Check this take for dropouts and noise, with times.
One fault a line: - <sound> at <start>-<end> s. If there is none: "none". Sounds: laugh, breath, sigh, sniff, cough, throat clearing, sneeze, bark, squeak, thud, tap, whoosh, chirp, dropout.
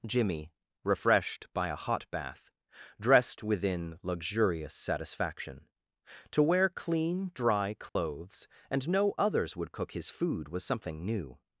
- dropout at 7.9-8.0 s